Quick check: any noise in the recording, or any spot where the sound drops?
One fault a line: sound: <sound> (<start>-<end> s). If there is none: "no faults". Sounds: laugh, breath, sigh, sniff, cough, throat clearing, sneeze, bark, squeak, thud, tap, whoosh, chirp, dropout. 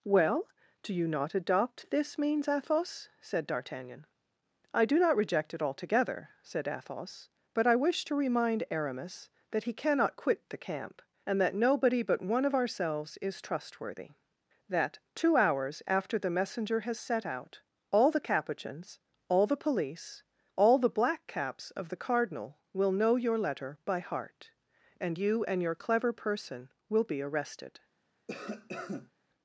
sound: cough (28.3-29.1 s)